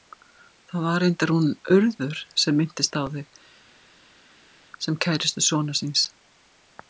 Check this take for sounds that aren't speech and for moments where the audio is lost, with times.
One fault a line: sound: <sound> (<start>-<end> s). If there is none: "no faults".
no faults